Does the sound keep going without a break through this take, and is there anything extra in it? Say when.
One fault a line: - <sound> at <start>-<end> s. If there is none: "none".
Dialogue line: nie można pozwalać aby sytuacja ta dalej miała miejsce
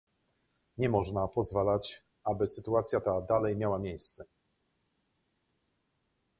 none